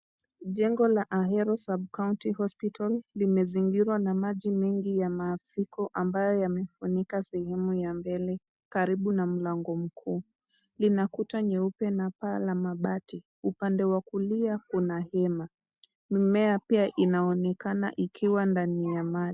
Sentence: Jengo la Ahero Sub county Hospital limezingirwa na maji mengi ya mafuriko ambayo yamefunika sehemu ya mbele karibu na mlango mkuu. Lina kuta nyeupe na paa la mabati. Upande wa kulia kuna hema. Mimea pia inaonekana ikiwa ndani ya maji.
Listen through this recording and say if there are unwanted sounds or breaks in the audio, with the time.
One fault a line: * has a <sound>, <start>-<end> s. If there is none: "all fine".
all fine